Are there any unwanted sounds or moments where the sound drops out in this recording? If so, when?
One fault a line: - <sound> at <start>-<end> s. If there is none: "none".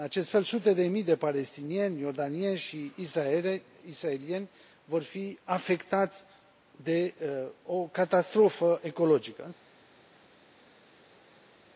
none